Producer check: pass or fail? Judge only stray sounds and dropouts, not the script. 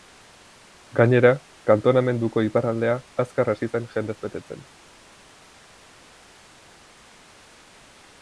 pass